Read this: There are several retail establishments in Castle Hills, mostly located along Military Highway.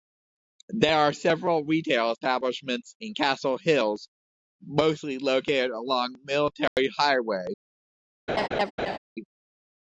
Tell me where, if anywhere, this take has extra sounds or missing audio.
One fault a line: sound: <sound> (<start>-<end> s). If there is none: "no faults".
sound: dropout (6.7-6.8 s)
sound: laugh (8.3-9.0 s)